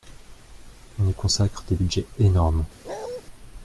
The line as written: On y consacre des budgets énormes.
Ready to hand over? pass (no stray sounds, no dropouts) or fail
fail